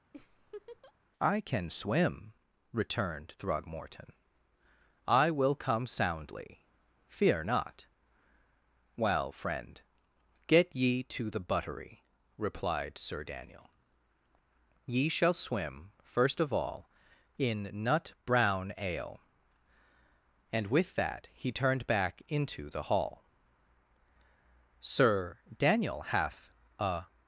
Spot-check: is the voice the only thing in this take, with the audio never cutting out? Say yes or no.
no